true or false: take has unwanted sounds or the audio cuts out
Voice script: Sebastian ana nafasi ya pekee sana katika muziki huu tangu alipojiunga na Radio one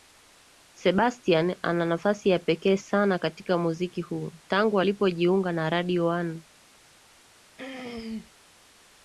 true